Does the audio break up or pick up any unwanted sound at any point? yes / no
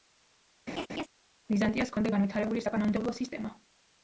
yes